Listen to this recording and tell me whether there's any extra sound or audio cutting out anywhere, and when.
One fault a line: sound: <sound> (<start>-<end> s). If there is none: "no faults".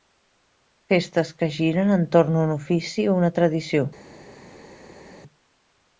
no faults